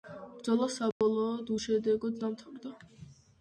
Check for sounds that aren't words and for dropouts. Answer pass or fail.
fail